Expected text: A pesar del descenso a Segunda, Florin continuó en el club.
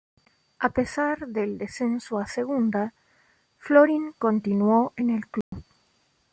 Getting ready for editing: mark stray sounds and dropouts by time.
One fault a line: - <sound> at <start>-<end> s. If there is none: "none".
- dropout at 5.4-5.5 s